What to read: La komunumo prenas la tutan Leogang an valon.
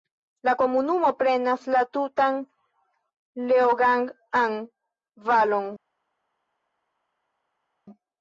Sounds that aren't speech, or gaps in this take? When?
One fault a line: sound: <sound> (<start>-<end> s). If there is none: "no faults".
no faults